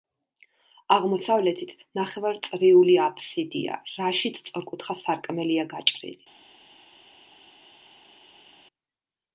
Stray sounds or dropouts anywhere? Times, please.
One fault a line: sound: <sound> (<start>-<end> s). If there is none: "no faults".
no faults